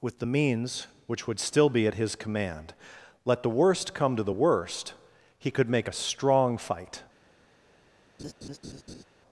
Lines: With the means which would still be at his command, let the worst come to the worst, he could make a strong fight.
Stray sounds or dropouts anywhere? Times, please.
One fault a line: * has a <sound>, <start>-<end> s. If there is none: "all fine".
* has a laugh, 8.2-9.0 s